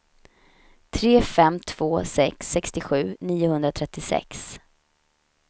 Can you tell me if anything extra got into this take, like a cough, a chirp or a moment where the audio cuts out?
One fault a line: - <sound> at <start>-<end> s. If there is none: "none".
none